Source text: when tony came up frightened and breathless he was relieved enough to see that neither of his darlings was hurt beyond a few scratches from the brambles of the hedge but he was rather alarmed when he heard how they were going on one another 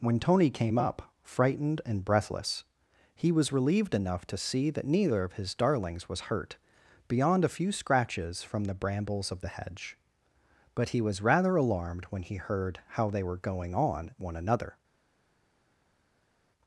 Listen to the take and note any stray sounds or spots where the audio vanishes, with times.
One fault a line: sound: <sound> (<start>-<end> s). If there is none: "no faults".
no faults